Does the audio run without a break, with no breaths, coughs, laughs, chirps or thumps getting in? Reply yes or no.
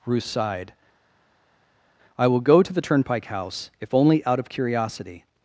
yes